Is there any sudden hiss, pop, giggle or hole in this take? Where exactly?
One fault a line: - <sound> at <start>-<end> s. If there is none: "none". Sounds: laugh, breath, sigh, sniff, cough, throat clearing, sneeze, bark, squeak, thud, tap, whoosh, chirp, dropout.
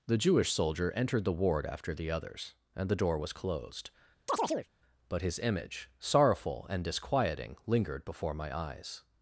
- chirp at 4.3-4.7 s